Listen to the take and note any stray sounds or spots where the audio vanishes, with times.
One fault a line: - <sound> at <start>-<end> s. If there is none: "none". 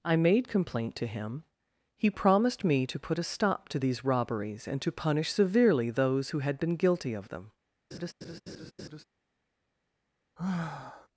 - laugh at 7.9-9.0 s
- sigh at 10.4-11.1 s